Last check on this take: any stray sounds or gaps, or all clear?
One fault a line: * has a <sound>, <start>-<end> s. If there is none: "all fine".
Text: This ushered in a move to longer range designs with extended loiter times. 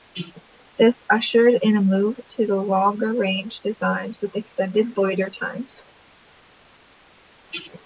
all fine